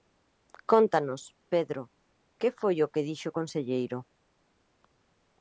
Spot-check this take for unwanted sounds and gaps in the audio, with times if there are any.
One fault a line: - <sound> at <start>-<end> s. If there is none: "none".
none